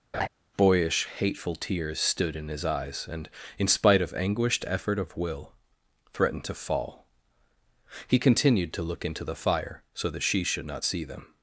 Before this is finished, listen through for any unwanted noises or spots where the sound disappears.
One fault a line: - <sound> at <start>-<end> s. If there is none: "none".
- laugh at 0.1-0.3 s